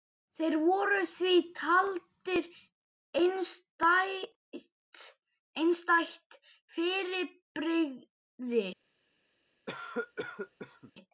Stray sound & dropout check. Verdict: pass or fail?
fail